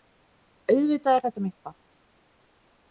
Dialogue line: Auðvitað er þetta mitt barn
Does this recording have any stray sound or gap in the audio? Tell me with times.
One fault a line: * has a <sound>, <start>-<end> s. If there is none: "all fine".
all fine